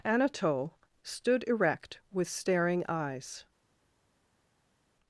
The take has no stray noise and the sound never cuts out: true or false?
true